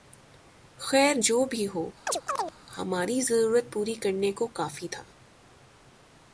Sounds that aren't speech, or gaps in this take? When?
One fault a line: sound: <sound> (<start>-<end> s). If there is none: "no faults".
sound: chirp (2.1-2.5 s)